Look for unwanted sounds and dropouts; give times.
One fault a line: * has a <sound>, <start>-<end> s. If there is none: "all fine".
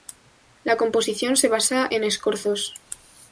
all fine